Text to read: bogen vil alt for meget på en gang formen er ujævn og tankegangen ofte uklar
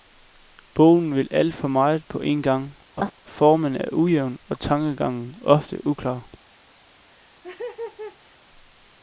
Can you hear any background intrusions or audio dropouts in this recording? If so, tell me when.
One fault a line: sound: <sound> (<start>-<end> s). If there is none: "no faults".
sound: laugh (3.0-3.1 s)
sound: laugh (7.1-8.4 s)